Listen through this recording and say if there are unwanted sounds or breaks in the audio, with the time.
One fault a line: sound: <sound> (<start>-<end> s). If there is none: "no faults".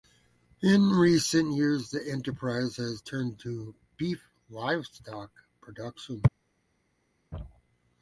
no faults